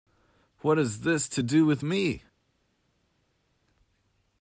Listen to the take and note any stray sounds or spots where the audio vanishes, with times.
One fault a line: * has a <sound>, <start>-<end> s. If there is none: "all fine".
all fine